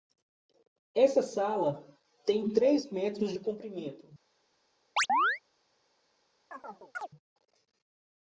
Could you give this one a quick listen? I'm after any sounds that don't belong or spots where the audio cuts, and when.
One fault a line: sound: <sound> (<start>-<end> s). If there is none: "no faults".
sound: chirp (5.0-5.4 s)
sound: chirp (6.5-7.1 s)